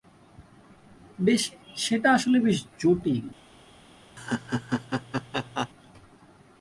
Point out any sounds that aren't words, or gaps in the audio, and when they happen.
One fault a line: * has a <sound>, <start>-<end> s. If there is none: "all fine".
* has a laugh, 4.2-5.7 s